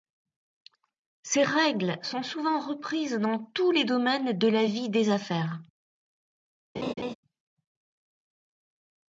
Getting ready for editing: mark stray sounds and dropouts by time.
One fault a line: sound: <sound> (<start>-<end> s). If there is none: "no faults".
sound: laugh (6.7-7.1 s)